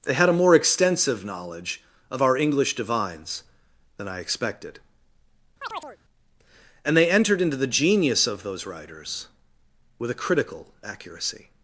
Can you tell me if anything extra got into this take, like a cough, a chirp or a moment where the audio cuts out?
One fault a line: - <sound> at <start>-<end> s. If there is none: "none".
- chirp at 5.6-6.0 s